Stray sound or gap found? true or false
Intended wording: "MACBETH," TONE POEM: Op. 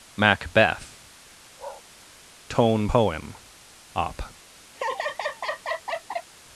true